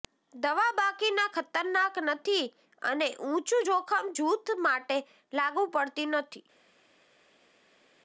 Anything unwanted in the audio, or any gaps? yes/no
no